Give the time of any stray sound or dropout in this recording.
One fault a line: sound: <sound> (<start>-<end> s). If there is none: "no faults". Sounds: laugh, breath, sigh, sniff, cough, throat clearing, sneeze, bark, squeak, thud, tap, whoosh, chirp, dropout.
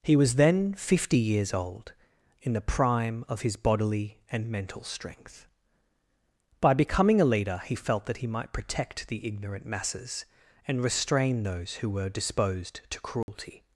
sound: dropout (13.2-13.3 s)